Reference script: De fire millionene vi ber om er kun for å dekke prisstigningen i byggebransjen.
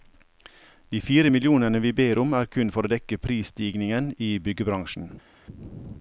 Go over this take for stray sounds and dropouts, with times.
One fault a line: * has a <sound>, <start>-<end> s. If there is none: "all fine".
all fine